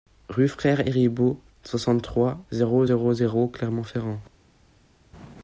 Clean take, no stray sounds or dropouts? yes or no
yes